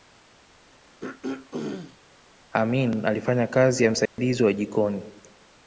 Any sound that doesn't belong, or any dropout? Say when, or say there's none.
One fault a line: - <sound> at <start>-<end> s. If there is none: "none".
- throat clearing at 1.0-2.0 s
- dropout at 4.1-4.2 s